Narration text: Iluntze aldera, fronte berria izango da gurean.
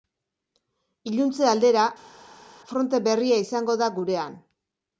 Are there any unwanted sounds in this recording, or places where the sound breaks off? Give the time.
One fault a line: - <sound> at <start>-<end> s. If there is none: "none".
none